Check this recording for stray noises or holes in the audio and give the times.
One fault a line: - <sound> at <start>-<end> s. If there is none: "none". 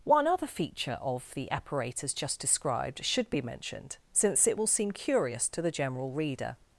none